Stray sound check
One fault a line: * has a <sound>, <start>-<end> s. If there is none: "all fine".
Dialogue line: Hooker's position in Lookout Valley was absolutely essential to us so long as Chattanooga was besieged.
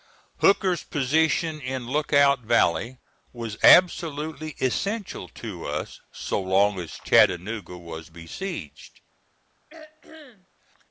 * has a throat clearing, 9.7-10.5 s